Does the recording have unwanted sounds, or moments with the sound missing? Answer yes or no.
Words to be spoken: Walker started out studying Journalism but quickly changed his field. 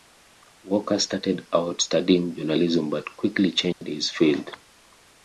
yes